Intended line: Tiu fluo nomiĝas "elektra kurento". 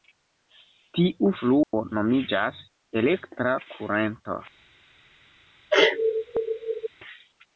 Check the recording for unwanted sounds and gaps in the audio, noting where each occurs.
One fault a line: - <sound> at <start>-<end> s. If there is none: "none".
- dropout at 1.6-1.7 s
- sneeze at 5.7-6.9 s